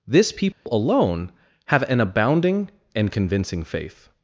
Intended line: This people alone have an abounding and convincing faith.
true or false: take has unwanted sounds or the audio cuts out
true